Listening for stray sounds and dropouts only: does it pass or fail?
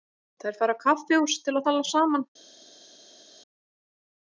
pass